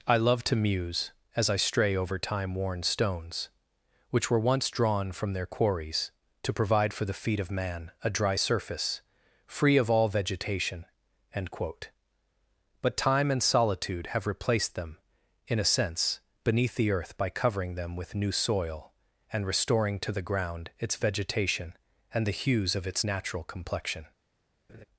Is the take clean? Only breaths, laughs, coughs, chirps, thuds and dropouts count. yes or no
no